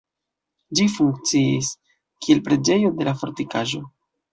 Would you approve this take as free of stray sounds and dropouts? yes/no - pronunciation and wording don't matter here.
yes